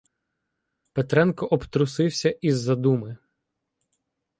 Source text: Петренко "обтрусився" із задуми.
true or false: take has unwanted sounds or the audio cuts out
false